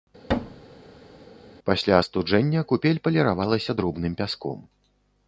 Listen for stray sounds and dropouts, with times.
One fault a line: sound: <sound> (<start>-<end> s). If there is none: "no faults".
sound: thud (0.3-1.3 s)